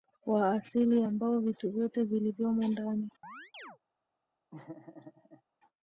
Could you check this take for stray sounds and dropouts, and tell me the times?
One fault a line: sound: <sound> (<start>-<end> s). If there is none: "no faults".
sound: chirp (3.2-3.8 s)
sound: laugh (4.5-5.4 s)